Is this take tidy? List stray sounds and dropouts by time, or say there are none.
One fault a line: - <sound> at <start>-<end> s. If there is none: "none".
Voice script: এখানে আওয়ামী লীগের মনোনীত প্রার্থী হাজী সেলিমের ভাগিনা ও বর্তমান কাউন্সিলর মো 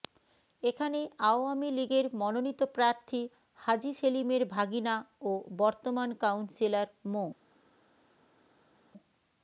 none